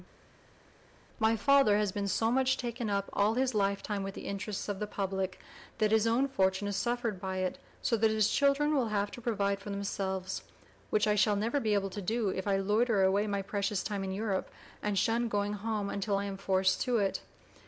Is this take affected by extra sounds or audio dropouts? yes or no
no